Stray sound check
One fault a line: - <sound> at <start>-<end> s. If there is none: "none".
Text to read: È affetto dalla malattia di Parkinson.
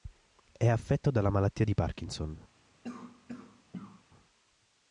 - cough at 2.8-4.0 s